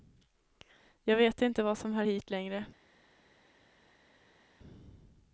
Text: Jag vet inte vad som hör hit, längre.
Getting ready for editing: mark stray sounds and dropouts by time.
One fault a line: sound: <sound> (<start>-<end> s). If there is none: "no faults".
no faults